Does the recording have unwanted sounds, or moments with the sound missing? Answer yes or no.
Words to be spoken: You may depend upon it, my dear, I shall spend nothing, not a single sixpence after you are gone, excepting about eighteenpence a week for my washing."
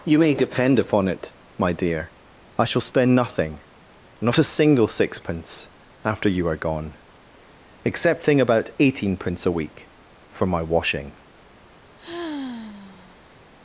yes